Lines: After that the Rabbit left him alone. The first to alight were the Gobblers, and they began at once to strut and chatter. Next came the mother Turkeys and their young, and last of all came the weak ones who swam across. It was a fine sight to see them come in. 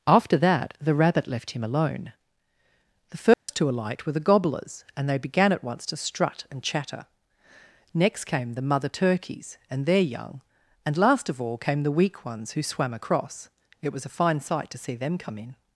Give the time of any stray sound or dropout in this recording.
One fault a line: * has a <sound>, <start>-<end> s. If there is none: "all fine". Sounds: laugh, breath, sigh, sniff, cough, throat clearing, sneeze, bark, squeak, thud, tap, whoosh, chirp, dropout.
* has a dropout, 3.3-3.5 s